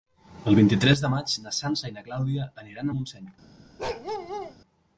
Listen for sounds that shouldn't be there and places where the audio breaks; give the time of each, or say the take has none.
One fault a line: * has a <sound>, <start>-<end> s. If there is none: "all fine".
* has a bark, 3.8-4.6 s